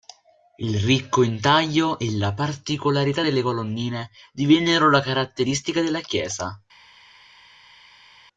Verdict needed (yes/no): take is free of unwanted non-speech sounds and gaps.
yes